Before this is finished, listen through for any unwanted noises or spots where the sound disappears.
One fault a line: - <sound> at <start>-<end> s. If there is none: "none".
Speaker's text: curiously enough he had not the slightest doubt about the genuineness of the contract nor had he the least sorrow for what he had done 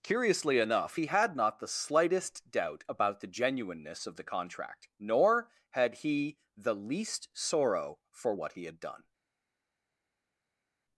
none